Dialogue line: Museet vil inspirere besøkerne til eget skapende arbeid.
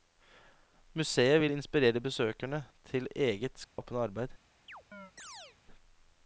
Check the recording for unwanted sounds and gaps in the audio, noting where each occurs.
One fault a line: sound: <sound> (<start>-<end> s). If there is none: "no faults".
sound: dropout (3.6-3.8 s)
sound: chirp (4.7-5.6 s)